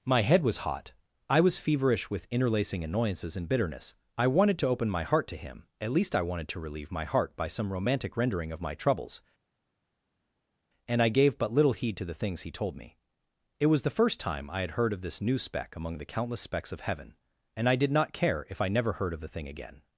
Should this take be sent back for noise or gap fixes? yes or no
no